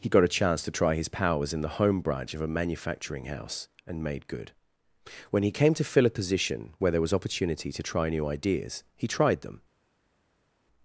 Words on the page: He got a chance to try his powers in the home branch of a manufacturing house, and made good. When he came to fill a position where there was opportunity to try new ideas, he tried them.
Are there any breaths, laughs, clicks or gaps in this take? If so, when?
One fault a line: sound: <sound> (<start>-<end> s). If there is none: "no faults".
no faults